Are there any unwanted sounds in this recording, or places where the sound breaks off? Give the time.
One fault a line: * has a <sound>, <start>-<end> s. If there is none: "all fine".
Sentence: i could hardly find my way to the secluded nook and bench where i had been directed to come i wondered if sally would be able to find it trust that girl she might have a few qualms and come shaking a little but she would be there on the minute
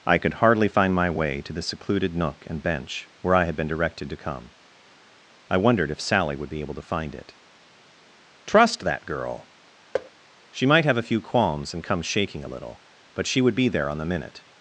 * has a thud, 9.9-10.1 s